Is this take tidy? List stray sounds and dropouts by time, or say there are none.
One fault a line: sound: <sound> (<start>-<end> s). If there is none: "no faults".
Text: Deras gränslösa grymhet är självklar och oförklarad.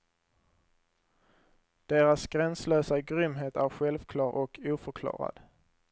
no faults